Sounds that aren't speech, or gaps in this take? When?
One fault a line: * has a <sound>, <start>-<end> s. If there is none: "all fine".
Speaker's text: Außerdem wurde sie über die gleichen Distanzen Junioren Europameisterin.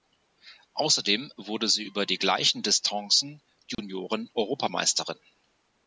* has a dropout, 3.7-3.8 s